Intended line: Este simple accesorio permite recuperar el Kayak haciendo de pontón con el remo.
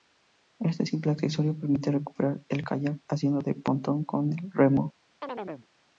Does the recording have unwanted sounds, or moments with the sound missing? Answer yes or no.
yes